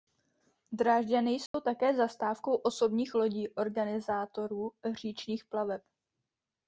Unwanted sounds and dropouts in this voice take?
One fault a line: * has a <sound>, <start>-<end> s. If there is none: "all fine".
* has a dropout, 1.5-1.5 s